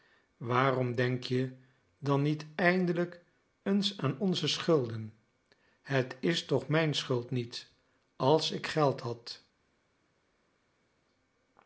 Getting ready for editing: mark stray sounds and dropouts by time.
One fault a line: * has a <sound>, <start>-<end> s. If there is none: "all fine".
all fine